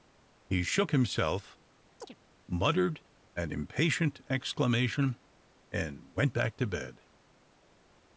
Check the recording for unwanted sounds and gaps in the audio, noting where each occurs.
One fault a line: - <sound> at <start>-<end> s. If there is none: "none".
- chirp at 2.0-2.2 s